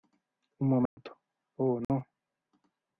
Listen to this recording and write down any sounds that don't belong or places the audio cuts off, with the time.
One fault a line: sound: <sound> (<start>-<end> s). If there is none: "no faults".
sound: dropout (0.9-1.0 s)
sound: dropout (1.8-1.9 s)